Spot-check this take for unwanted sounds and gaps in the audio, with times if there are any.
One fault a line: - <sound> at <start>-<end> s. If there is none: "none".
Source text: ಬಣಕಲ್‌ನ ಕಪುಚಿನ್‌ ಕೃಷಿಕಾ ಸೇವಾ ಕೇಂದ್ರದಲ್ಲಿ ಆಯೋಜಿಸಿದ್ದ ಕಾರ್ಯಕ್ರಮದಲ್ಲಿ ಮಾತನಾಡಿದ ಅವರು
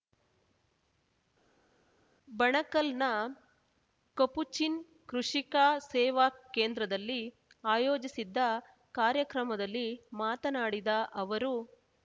none